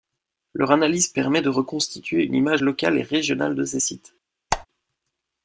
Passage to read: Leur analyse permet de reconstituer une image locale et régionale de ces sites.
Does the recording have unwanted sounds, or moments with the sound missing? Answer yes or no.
yes